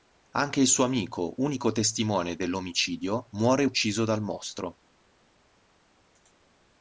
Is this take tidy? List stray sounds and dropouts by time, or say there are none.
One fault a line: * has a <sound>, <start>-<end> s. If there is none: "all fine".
all fine